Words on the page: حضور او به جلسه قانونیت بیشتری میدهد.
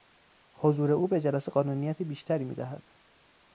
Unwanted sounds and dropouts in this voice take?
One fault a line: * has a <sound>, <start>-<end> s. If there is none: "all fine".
all fine